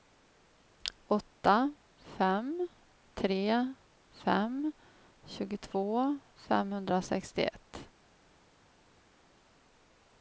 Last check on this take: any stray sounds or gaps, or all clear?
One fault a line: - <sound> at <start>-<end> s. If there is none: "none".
none